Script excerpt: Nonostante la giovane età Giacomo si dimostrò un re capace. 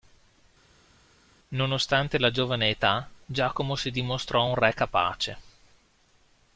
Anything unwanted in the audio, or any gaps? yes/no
no